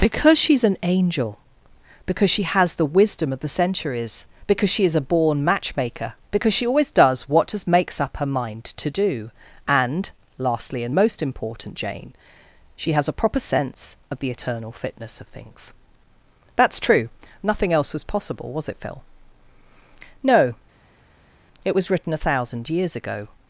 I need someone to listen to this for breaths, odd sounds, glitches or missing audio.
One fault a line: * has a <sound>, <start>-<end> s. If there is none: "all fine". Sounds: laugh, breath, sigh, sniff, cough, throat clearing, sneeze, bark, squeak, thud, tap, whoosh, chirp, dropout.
all fine